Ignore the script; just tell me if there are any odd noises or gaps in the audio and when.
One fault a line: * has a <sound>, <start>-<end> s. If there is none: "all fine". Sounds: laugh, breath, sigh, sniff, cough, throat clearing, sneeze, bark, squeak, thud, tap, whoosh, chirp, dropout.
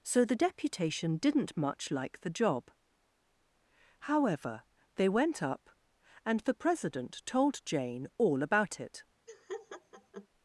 * has a laugh, 9.3-10.3 s